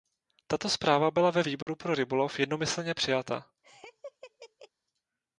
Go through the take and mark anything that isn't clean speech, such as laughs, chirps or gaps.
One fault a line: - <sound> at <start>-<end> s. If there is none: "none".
- dropout at 1.6-1.7 s
- laugh at 3.6-4.7 s